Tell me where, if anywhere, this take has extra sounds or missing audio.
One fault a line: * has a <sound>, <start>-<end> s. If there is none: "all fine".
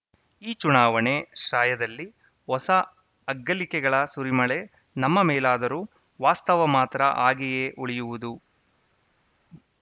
all fine